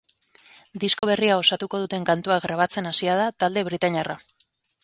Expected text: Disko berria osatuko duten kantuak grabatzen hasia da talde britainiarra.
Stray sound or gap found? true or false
true